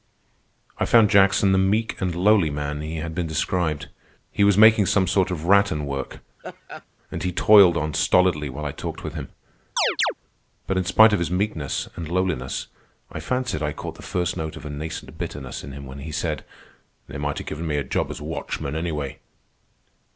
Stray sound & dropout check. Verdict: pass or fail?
fail